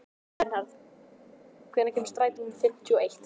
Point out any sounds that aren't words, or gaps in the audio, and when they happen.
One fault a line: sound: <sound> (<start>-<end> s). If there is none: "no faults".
no faults